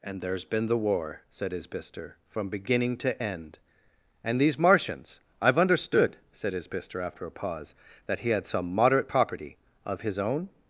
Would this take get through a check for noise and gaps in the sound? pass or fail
pass